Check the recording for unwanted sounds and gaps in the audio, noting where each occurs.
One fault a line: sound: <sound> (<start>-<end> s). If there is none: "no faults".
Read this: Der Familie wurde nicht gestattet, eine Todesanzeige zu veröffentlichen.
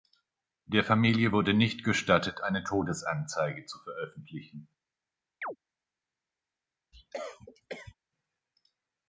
sound: chirp (5.4-5.6 s)
sound: cough (6.9-8.0 s)